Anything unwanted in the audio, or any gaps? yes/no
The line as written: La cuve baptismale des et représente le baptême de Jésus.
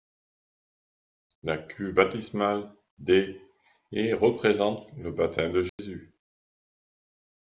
yes